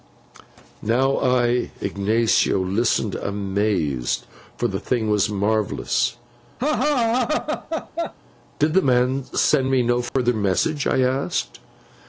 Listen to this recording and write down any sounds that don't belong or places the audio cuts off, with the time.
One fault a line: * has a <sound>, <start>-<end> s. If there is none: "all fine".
* has a laugh, 6.6-8.1 s
* has a dropout, 10.1-10.2 s